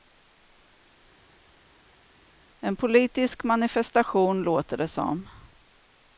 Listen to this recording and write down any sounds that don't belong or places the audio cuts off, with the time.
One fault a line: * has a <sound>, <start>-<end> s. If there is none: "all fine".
all fine